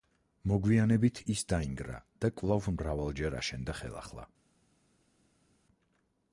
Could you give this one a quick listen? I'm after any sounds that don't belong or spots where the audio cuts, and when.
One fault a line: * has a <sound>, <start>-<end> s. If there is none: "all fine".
all fine